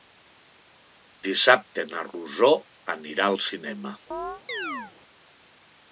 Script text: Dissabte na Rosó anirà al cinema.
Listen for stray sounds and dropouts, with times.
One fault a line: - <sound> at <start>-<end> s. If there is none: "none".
- chirp at 4.1-4.9 s